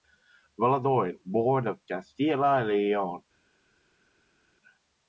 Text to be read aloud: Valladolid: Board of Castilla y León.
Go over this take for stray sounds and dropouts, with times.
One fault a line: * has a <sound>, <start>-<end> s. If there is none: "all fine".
all fine